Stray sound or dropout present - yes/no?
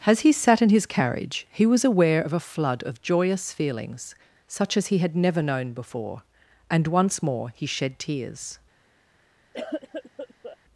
yes